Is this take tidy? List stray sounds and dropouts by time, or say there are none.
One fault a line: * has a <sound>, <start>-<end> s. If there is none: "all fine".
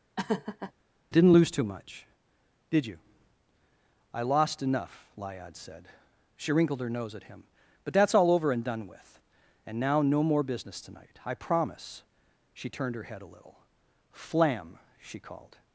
* has a laugh, 0.2-0.7 s